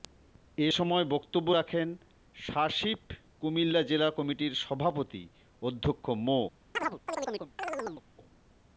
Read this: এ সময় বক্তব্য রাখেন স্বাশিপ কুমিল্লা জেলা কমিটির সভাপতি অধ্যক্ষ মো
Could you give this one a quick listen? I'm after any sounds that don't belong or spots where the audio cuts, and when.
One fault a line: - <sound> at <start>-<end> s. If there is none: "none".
- chirp at 6.7-8.0 s